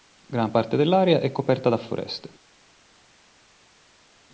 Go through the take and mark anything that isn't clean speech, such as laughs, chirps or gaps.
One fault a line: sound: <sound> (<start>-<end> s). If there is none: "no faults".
no faults